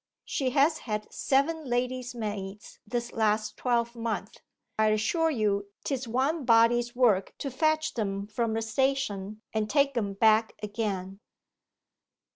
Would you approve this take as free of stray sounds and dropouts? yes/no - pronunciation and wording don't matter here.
yes